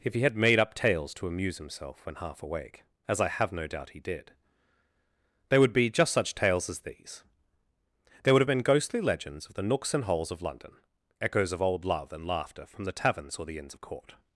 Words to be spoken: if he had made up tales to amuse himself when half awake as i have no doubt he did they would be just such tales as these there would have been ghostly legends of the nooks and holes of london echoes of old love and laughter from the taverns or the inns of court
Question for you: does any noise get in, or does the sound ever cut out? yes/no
no